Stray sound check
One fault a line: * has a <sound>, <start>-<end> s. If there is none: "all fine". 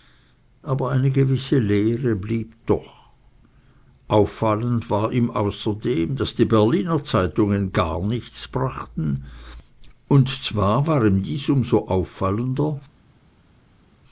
all fine